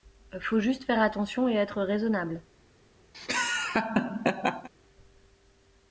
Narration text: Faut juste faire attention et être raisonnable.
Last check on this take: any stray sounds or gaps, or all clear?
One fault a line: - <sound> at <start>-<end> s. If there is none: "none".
- laugh at 3.1-4.7 s